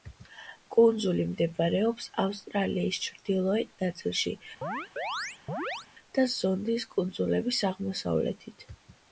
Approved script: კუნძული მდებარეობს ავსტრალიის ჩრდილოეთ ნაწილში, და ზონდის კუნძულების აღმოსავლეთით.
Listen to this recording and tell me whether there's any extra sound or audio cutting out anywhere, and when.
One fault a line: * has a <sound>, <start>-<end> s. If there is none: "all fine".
* has a chirp, 4.6-5.9 s